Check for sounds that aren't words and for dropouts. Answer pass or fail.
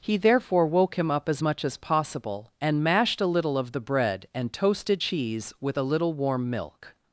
pass